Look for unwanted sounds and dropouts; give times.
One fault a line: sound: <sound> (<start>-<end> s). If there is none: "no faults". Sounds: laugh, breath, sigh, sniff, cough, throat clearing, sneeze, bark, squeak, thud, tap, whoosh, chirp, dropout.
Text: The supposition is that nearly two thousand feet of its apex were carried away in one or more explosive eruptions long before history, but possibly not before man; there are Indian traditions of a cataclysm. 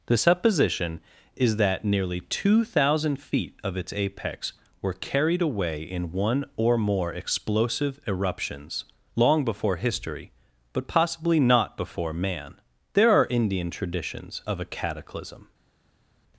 no faults